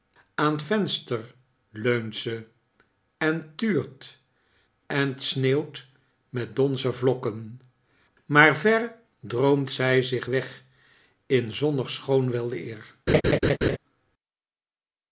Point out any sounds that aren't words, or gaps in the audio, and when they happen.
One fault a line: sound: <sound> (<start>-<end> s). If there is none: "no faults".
sound: laugh (13.1-13.8 s)